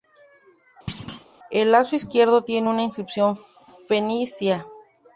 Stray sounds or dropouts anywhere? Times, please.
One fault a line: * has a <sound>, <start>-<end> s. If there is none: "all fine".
* has a thud, 0.9-1.3 s